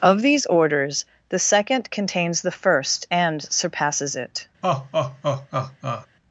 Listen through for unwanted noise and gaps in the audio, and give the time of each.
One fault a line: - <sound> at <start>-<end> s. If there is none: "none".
- laugh at 4.6-6.1 s